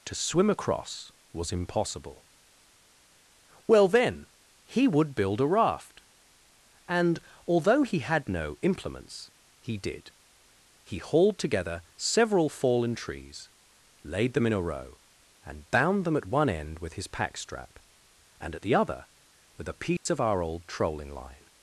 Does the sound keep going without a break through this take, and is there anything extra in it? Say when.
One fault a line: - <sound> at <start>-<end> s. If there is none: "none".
- dropout at 20.0-20.1 s